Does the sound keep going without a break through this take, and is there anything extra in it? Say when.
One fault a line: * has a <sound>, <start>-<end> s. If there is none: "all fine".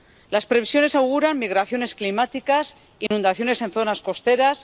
* has a dropout, 3.1-3.1 s